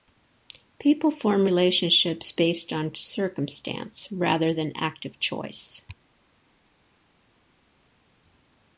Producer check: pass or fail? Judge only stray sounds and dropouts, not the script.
pass